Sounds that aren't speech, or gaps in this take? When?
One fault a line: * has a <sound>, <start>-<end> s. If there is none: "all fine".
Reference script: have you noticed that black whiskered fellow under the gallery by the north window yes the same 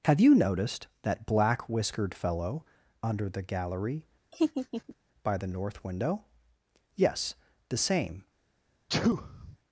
* has a laugh, 4.3-5.0 s
* has a sneeze, 8.9-9.6 s